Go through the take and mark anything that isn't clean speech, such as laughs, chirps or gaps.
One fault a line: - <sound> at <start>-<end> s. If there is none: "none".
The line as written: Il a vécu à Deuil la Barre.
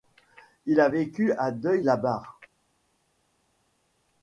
none